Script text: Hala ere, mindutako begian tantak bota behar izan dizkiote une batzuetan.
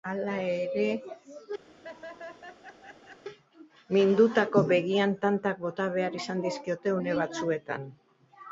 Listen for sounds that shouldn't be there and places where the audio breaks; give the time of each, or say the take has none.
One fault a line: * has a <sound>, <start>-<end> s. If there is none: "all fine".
* has a laugh, 1.7-3.2 s